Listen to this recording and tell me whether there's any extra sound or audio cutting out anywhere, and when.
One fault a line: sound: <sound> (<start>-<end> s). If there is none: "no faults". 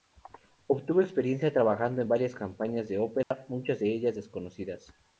sound: dropout (3.2-3.3 s)